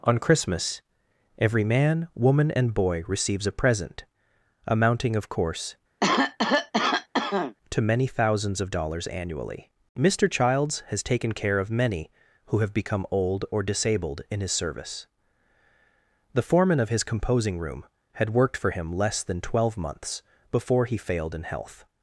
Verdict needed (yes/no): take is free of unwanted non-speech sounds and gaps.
no